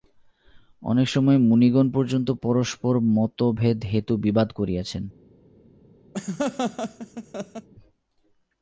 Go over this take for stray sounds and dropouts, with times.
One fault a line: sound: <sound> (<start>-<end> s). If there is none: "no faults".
sound: laugh (6.1-7.7 s)